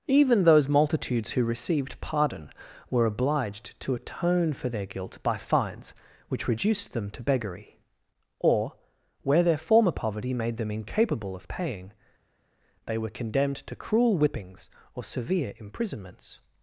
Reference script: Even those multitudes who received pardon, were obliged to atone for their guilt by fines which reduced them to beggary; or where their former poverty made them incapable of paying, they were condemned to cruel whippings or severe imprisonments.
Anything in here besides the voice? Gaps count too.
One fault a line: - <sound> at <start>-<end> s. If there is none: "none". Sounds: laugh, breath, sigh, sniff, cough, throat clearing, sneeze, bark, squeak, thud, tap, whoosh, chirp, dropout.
none